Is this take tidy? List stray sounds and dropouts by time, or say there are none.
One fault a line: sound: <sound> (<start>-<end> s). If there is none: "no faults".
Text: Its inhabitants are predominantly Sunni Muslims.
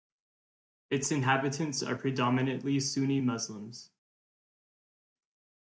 no faults